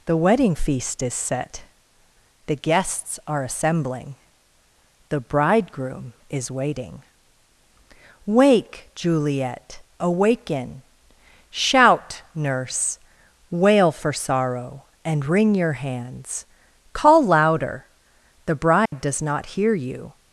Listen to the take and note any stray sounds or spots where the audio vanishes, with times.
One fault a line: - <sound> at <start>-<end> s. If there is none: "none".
- dropout at 18.9-18.9 s